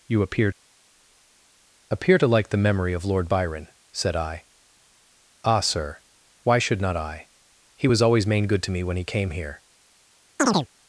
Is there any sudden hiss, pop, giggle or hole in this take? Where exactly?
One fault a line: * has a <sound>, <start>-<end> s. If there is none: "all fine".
* has a chirp, 10.4-10.7 s